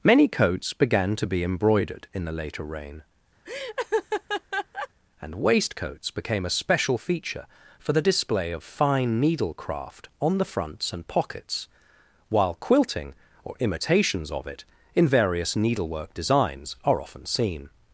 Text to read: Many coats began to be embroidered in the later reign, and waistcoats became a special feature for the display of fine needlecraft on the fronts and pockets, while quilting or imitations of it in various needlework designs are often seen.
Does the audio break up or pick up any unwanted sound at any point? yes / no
yes